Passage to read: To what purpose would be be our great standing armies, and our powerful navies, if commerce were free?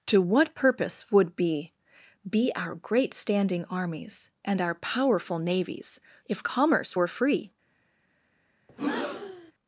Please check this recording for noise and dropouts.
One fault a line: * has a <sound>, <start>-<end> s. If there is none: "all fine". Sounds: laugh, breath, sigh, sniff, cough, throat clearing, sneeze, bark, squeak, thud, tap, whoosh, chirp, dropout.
* has a breath, 8.7-9.5 s